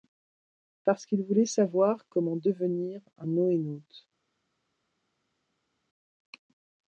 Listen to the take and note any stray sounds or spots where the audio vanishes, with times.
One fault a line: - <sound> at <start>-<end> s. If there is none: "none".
none